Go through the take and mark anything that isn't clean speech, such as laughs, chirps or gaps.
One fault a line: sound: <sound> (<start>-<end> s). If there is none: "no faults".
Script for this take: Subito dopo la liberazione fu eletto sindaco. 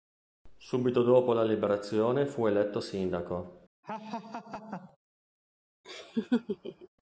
sound: laugh (3.8-5.0 s)
sound: laugh (5.8-6.9 s)